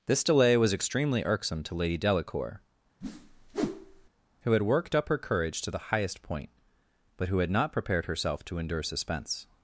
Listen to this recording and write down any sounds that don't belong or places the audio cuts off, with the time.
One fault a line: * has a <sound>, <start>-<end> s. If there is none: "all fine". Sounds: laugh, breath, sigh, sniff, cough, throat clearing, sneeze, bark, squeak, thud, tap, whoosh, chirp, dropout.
* has a whoosh, 3.0-4.1 s